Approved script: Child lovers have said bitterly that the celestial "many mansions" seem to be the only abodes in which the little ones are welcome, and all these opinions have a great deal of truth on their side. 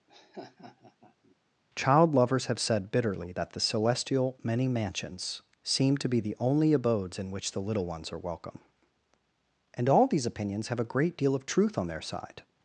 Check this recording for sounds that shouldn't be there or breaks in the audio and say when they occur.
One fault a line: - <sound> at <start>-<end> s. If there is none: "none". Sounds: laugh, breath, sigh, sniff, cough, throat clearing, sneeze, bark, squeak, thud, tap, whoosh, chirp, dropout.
- laugh at 0.1-1.4 s